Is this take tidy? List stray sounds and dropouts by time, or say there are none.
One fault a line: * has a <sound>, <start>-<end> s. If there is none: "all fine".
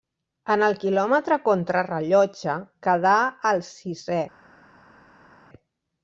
all fine